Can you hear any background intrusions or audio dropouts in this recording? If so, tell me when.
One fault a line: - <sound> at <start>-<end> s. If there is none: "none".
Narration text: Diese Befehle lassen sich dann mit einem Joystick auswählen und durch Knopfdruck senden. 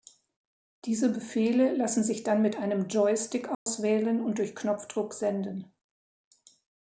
- dropout at 3.5-3.7 s